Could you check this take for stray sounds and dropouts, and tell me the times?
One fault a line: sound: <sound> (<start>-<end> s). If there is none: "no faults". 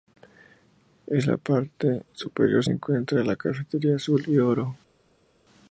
no faults